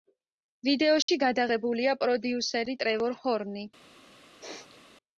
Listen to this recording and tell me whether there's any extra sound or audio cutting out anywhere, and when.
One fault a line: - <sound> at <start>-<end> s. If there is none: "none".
- dropout at 1.0-1.1 s
- sneeze at 4.4-4.8 s